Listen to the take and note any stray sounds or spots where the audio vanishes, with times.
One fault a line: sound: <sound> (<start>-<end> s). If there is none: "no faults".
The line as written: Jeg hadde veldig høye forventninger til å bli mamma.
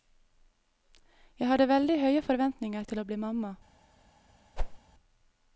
sound: whoosh (4.6-4.8 s)